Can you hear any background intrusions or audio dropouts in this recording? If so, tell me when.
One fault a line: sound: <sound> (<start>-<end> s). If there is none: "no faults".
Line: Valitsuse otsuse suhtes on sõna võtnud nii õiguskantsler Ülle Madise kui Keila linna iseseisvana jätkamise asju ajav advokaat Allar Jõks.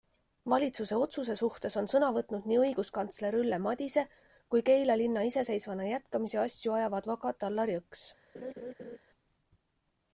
sound: laugh (8.3-9.0 s)